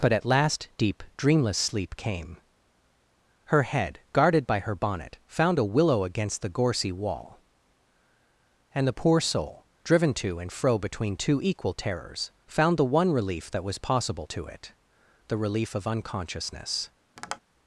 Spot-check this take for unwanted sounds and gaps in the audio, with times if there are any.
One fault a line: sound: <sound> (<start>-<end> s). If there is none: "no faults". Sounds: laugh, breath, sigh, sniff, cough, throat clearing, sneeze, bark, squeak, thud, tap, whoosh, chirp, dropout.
sound: tap (17.2-17.4 s)